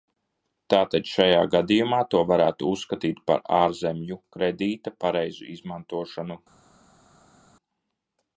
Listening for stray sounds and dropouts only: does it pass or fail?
pass